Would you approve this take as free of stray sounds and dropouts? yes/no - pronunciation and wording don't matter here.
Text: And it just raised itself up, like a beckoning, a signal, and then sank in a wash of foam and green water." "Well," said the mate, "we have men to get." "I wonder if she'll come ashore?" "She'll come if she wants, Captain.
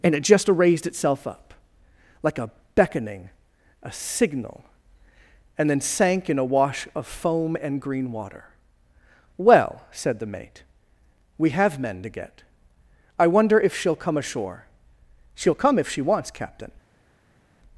yes